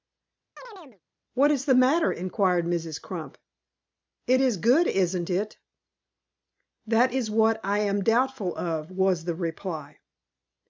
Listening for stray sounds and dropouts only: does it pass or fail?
fail